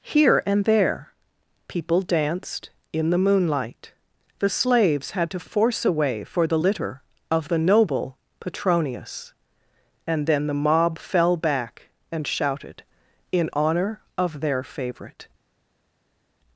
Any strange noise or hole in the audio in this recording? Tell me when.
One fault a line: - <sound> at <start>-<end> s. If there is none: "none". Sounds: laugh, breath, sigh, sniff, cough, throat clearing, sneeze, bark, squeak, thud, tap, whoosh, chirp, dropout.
none